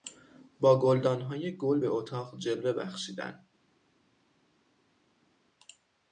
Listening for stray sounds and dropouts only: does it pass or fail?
pass